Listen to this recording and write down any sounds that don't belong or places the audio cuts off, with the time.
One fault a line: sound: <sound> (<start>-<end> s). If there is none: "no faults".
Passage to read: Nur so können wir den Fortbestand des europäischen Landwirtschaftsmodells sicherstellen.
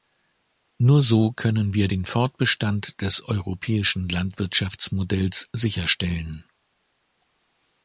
no faults